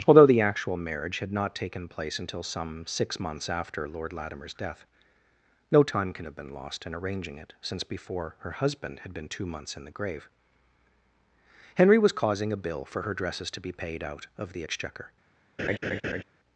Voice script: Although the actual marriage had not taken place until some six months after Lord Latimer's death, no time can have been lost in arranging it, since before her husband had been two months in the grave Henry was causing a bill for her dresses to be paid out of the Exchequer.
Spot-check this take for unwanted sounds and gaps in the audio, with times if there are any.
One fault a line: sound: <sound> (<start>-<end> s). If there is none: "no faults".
sound: laugh (15.6-16.2 s)